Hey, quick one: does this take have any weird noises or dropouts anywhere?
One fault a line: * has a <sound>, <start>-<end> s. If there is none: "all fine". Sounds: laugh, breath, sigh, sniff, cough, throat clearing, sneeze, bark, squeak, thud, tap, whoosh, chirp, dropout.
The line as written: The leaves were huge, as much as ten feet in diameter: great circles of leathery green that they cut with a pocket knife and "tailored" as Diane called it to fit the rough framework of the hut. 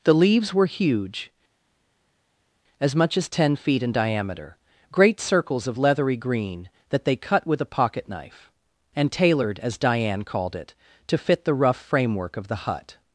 all fine